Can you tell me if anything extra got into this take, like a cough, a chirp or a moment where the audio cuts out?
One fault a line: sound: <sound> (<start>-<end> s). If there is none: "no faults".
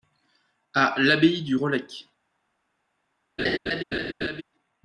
sound: laugh (3.4-4.4 s)